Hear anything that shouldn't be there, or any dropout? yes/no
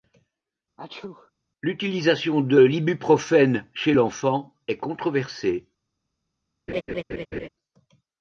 yes